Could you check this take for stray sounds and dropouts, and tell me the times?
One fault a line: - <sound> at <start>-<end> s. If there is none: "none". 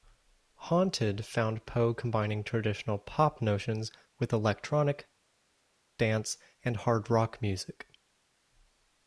none